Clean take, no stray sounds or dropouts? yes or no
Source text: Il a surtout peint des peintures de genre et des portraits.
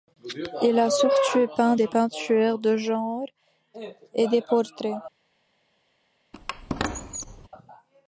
no